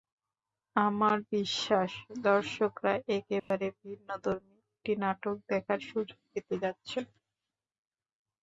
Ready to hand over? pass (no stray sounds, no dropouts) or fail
fail